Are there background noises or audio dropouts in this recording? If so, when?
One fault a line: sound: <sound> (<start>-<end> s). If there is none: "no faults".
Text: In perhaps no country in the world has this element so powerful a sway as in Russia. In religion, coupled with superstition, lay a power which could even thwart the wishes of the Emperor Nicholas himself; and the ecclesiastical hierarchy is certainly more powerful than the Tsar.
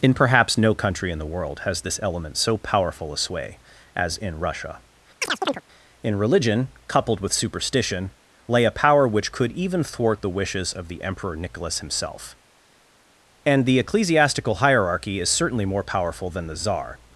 sound: chirp (5.2-5.6 s)